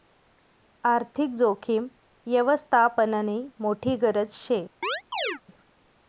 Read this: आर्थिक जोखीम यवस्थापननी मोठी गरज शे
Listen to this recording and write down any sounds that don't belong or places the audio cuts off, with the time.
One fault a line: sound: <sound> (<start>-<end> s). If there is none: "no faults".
sound: chirp (4.8-5.4 s)